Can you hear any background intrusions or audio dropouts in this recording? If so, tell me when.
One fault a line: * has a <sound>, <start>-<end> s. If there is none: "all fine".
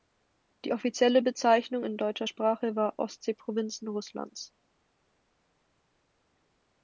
all fine